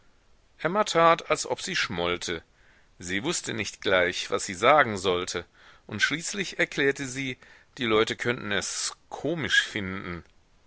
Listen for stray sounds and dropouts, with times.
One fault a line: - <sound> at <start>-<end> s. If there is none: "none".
none